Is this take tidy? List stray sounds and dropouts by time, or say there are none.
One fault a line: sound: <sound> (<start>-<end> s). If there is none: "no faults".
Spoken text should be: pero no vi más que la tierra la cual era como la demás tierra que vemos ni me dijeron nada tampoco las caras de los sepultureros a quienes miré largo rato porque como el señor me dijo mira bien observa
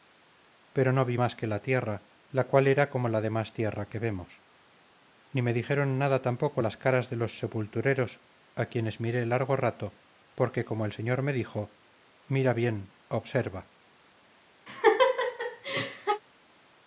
sound: laugh (14.7-16.2 s)